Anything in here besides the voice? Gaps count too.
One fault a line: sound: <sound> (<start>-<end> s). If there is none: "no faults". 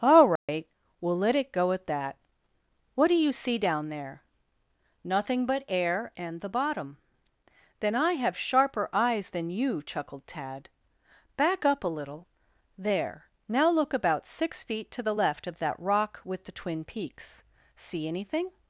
sound: dropout (0.4-0.5 s)